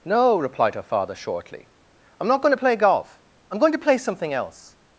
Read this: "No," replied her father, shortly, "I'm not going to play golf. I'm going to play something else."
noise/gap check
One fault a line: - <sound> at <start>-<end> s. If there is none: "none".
none